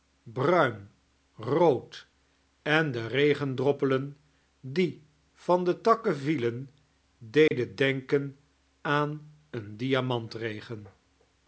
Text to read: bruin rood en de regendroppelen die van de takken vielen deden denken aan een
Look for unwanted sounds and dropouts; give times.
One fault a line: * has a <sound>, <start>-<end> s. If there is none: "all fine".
* has a dropout, 7.5-7.5 s